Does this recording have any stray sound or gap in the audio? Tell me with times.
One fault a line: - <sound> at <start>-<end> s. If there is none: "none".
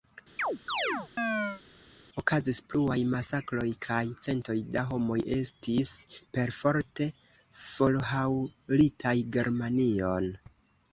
- chirp at 0.4-1.6 s